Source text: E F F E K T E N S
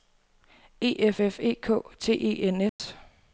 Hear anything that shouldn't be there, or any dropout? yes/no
yes